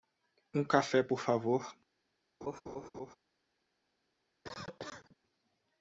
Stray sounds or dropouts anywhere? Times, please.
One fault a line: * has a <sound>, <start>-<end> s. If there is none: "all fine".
* has a laugh, 2.4-3.2 s
* has a cough, 4.4-5.2 s